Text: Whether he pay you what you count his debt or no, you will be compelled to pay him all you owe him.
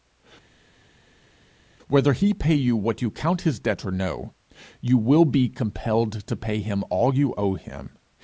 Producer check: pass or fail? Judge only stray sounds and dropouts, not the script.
pass